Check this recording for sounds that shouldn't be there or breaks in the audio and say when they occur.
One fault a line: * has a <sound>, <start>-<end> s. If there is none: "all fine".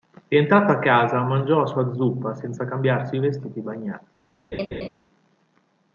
* has a laugh, 4.5-4.9 s